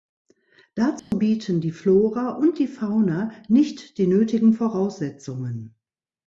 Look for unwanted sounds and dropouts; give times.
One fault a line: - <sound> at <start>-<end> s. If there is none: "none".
- dropout at 1.0-1.1 s